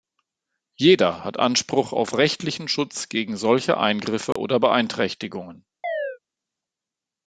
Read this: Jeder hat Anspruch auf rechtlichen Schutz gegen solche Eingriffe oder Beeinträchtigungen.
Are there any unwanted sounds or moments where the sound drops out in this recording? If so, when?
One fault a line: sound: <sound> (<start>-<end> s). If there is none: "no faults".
sound: dropout (4.3-4.4 s)
sound: chirp (5.8-6.2 s)